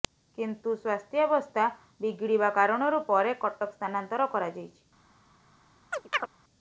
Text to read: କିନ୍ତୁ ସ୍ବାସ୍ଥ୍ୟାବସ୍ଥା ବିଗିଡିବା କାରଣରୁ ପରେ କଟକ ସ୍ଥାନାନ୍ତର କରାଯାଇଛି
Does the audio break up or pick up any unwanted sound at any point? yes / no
yes